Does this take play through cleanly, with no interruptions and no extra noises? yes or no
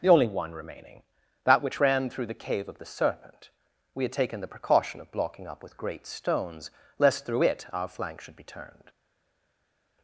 yes